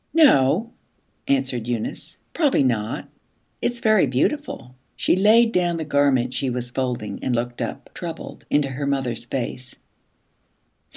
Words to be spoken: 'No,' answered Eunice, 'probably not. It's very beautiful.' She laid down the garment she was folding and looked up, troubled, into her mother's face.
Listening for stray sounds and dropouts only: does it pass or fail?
pass